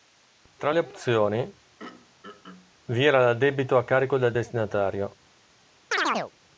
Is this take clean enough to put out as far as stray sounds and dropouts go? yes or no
no